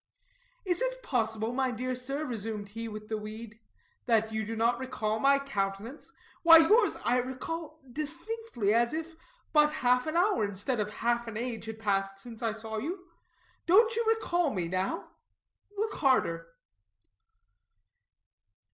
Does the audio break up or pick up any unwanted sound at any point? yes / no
no